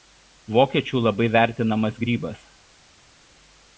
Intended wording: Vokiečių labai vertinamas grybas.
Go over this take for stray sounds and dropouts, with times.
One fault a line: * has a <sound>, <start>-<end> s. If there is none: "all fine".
all fine